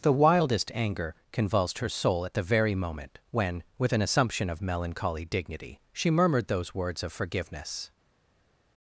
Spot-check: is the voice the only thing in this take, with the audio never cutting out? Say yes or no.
yes